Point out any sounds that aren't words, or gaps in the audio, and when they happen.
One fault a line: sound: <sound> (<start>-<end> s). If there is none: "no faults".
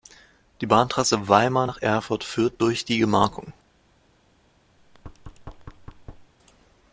sound: thud (4.8-6.3 s)